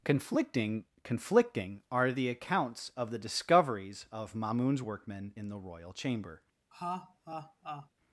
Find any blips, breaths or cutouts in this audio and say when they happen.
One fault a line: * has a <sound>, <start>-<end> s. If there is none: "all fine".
* has a laugh, 6.7-7.9 s